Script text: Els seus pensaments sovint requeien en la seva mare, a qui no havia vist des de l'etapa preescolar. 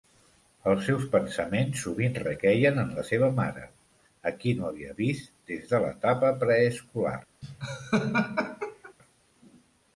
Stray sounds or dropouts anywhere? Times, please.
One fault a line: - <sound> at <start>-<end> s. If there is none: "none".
- laugh at 7.4-8.9 s